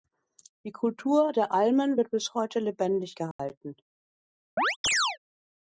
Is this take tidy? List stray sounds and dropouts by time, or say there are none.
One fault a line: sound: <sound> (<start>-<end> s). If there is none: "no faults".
sound: dropout (3.3-3.4 s)
sound: chirp (4.6-5.2 s)